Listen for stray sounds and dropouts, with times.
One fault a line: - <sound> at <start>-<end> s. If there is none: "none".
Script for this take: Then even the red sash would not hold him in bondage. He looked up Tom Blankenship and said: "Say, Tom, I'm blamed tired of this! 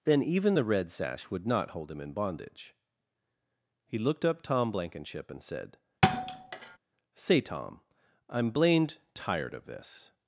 - thud at 6.0-6.8 s